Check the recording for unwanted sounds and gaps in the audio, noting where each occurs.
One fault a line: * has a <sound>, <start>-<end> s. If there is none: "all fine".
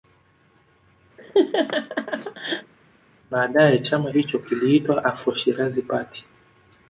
* has a laugh, 1.2-2.7 s